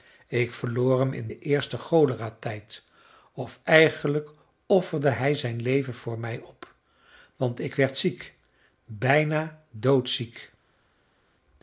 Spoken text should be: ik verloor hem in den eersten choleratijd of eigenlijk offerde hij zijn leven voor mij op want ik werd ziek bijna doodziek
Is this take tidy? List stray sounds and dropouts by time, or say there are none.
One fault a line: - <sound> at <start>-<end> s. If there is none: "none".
none